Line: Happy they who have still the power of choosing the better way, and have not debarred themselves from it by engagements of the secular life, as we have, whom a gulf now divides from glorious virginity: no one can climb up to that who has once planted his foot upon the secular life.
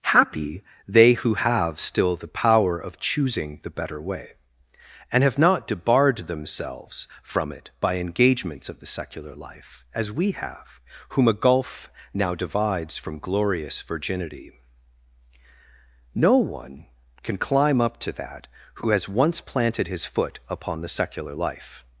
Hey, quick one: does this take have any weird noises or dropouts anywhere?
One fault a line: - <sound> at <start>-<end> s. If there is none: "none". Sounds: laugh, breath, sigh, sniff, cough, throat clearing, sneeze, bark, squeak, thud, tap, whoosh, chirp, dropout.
none